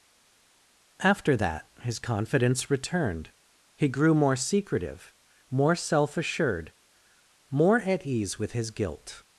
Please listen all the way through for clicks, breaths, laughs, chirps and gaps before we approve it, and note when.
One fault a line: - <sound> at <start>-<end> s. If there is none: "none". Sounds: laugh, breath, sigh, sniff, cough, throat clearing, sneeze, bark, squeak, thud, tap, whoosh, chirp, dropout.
none